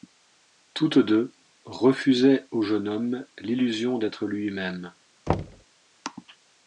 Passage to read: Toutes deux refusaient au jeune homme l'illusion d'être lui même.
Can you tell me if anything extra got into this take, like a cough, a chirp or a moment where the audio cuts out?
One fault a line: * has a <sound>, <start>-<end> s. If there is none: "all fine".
* has a thud, 5.3-5.6 s